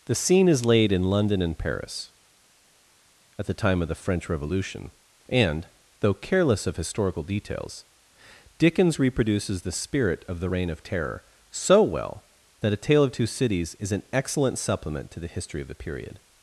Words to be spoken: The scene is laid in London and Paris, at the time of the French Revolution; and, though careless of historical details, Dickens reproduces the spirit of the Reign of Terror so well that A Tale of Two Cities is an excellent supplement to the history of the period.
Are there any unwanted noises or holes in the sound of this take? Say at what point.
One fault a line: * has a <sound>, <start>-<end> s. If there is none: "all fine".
all fine